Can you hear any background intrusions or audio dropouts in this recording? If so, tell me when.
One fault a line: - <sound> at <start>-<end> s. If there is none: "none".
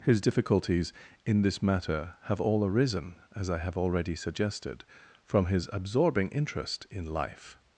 none